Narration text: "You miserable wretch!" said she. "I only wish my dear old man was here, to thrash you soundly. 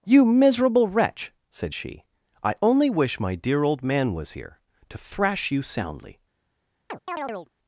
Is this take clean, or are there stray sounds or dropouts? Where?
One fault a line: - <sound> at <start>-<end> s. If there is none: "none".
- chirp at 6.9-7.5 s